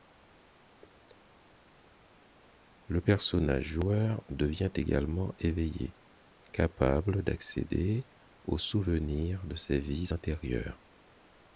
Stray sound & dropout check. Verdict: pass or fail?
pass